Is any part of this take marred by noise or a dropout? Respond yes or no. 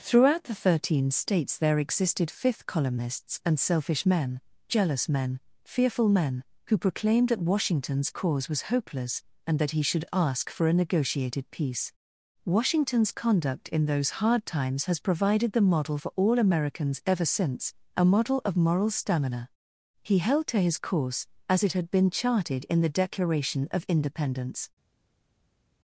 no